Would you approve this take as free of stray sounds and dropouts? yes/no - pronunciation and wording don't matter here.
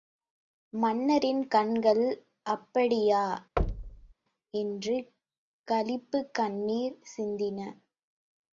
no